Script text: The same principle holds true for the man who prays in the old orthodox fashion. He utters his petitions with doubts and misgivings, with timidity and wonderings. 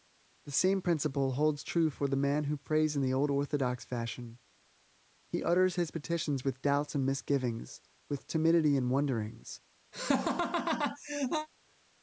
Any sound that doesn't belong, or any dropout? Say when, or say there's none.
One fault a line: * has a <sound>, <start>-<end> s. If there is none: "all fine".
* has a laugh, 9.9-11.5 s